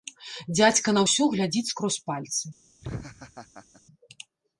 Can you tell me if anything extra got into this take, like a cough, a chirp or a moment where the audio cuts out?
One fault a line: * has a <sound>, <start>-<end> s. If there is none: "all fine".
* has a laugh, 2.8-3.8 s